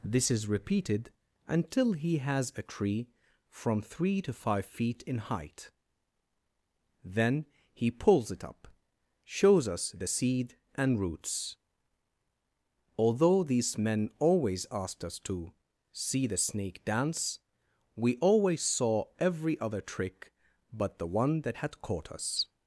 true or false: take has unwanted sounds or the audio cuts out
false